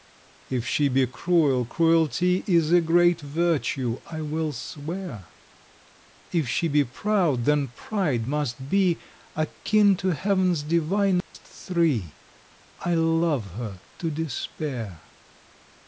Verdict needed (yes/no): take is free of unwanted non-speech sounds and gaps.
no